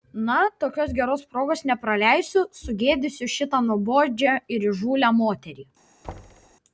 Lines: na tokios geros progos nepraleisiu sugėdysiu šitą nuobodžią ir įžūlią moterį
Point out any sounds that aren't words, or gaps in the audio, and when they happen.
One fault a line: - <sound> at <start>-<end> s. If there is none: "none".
- thud at 6.0-6.6 s